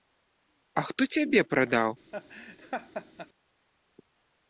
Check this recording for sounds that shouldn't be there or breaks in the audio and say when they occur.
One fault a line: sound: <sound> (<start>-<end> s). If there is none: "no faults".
sound: laugh (2.1-3.3 s)